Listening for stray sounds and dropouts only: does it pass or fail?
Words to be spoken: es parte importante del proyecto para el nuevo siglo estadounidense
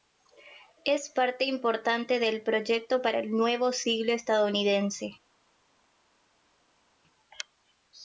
pass